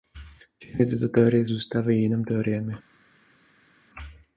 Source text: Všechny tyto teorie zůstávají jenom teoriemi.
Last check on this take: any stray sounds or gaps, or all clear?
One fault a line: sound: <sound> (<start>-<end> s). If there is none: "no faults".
no faults